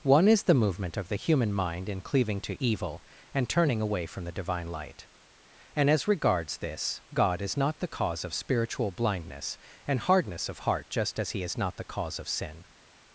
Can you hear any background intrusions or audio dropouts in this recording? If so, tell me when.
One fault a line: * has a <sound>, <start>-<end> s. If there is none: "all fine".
all fine